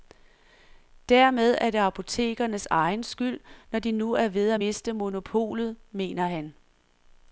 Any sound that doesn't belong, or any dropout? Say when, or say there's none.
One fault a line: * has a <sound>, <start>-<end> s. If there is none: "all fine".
all fine